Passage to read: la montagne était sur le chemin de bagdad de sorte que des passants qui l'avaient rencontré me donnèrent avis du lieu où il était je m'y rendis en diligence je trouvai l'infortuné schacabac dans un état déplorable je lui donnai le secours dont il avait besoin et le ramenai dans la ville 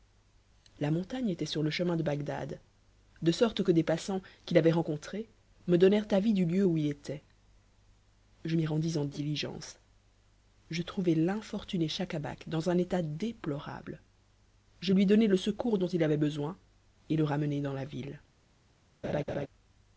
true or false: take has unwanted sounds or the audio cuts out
true